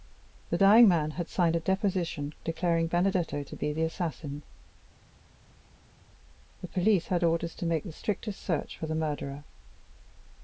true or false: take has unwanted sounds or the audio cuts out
false